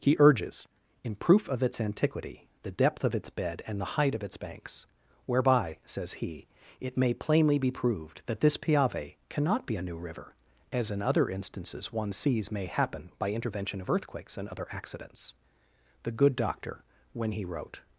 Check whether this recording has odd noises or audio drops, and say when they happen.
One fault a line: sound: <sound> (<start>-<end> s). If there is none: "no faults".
no faults